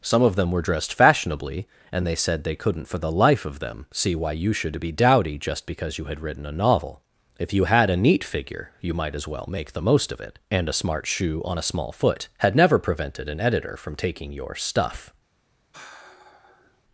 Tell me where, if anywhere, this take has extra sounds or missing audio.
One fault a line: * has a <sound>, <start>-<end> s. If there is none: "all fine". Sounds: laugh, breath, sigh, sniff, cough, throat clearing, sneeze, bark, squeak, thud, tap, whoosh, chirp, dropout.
* has a sigh, 15.7-16.8 s